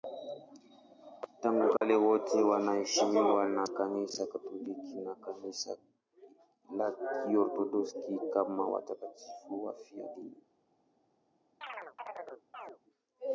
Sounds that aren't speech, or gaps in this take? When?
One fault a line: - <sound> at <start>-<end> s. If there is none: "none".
- dropout at 1.8-1.8 s
- chirp at 11.6-12.8 s